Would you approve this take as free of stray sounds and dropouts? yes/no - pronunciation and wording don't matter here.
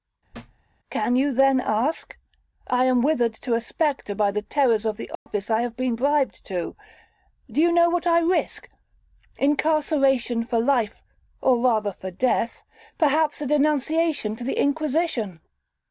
no